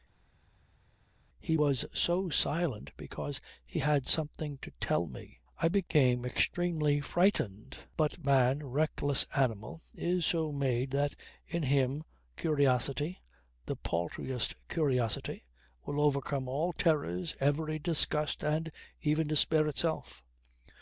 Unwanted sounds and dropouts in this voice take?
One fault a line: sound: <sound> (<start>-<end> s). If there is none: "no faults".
no faults